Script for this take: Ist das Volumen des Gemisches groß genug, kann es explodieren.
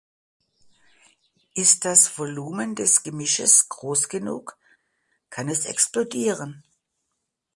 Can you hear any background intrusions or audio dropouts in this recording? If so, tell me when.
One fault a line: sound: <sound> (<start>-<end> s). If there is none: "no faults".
no faults